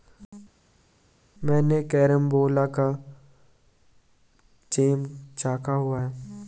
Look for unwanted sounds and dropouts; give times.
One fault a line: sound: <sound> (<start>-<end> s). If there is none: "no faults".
no faults